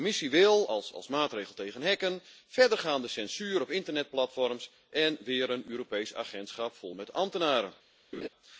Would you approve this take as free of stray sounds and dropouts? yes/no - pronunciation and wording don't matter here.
no